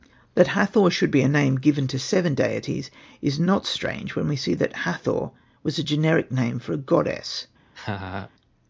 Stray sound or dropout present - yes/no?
yes